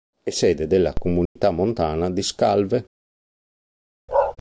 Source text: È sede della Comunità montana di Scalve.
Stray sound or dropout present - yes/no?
yes